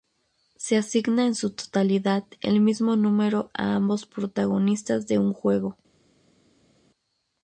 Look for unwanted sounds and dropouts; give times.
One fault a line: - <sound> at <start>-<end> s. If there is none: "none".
none